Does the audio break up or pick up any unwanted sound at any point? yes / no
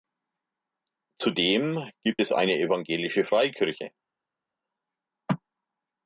no